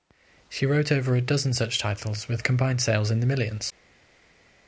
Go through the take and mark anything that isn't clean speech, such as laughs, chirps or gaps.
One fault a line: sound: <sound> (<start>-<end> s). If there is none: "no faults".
no faults